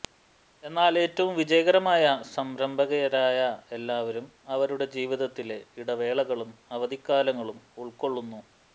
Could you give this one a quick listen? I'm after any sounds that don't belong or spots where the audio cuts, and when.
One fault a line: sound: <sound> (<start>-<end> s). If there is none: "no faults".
no faults